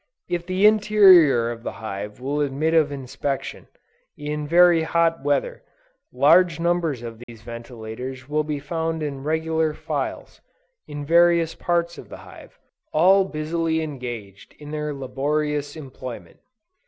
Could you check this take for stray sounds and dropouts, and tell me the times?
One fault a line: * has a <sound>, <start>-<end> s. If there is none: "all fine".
* has a dropout, 7.2-7.3 s